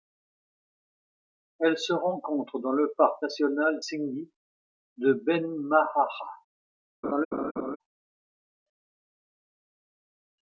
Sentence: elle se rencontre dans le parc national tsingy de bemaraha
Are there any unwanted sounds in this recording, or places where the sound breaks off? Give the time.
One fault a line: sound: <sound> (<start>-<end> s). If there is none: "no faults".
sound: laugh (7.0-7.8 s)